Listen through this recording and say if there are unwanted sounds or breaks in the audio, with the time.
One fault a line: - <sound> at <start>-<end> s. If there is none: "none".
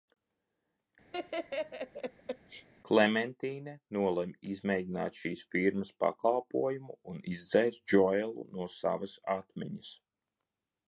- laugh at 1.1-2.7 s